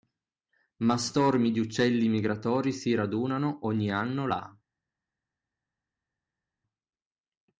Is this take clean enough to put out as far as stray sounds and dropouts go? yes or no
yes